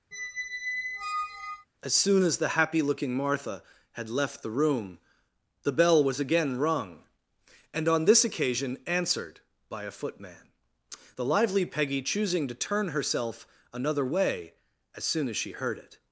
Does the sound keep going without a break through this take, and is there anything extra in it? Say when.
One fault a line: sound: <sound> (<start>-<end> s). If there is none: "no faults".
sound: squeak (0.1-1.7 s)